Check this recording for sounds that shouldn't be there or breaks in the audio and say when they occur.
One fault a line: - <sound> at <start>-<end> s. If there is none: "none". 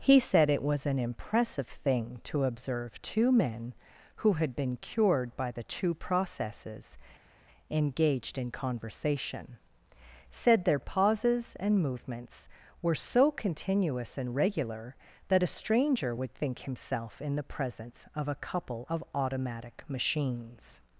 none